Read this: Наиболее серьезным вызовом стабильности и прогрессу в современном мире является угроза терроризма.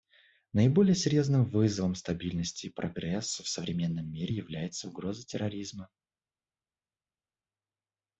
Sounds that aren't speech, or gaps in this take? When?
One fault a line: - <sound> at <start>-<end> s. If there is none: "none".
none